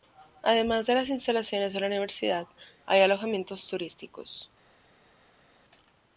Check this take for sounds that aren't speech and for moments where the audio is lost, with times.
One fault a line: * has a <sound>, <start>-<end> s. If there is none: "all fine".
all fine